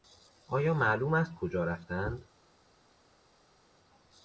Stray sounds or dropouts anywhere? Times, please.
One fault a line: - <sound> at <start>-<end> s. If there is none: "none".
none